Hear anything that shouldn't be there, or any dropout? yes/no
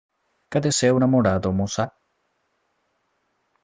no